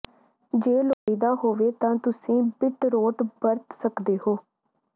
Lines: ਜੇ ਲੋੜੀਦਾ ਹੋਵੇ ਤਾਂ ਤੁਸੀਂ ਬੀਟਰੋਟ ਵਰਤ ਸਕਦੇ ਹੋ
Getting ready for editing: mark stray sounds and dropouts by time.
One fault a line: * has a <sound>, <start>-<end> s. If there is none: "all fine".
* has a dropout, 0.9-1.1 s